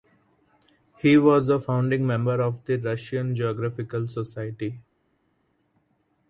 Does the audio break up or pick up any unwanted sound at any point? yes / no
no